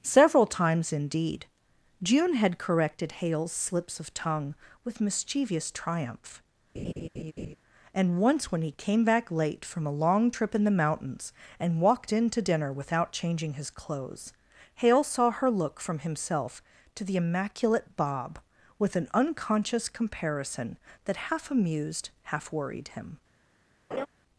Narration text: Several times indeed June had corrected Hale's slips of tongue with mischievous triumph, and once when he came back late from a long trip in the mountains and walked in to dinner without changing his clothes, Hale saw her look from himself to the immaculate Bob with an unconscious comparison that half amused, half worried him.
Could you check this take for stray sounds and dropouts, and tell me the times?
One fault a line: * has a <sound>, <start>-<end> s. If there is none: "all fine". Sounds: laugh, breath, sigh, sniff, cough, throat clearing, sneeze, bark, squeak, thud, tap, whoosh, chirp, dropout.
* has a laugh, 6.7-7.6 s
* has a laugh, 23.9-24.1 s